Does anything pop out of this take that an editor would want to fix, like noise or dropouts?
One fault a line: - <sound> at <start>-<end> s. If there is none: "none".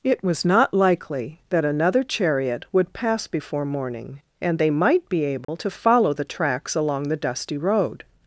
- dropout at 5.4-5.5 s